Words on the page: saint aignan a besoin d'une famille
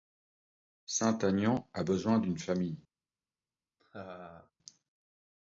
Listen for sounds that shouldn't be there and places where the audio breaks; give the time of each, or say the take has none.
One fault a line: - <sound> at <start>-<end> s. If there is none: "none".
- laugh at 3.8-4.5 s